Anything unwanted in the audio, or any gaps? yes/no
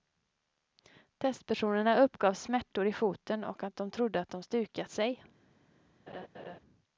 yes